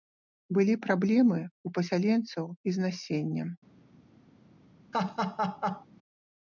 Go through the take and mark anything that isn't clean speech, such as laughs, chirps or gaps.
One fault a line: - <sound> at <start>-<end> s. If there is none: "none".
- laugh at 4.9-5.9 s